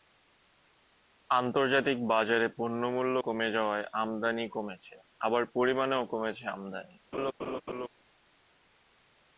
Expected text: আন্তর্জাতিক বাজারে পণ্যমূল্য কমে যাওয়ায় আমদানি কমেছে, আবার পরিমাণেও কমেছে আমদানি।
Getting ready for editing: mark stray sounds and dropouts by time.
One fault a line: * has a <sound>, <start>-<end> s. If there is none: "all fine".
* has a laugh, 7.1-7.9 s